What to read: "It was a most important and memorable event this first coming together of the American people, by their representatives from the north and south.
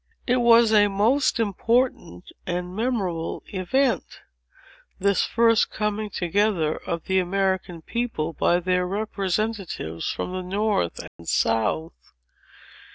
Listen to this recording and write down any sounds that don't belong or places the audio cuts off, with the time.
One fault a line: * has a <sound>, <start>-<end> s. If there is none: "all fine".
* has a dropout, 11.1-11.2 s